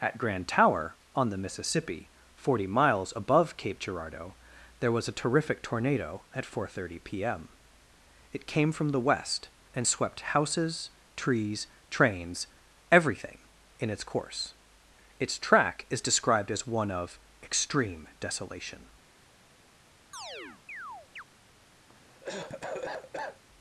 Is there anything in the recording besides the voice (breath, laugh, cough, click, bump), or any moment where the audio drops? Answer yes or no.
yes